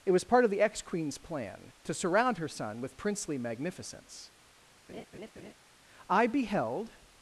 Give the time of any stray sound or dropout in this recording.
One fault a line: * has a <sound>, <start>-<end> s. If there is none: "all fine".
* has a laugh, 4.9-5.5 s